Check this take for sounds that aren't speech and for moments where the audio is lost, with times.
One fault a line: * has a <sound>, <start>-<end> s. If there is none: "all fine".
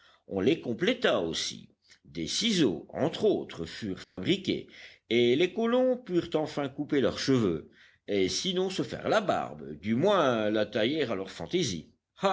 * has a dropout, 4.0-4.2 s